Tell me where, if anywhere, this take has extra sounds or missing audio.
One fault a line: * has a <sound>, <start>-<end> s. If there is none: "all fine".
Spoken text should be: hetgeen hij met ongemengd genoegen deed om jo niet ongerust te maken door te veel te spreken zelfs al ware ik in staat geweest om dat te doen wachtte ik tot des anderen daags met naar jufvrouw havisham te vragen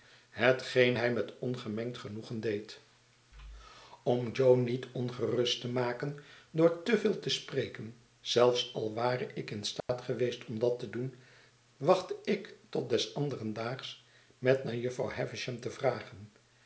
* has a dropout, 9.8-9.9 s